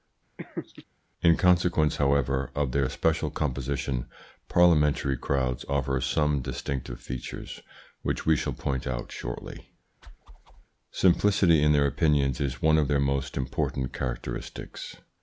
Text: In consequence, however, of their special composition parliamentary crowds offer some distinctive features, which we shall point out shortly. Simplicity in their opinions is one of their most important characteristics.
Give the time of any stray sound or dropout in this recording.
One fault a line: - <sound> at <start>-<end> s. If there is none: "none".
- laugh at 0.4-0.9 s
- whoosh at 10.0-10.7 s